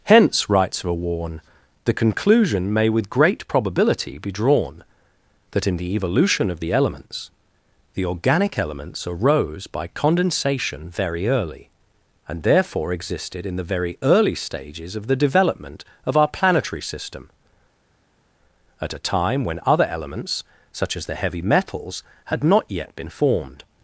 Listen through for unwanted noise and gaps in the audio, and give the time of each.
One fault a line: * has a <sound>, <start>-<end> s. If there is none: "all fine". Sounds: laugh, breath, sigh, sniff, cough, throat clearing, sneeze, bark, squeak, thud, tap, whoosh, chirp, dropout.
all fine